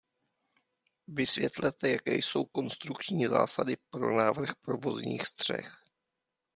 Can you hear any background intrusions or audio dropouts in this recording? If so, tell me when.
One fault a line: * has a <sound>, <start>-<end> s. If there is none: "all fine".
all fine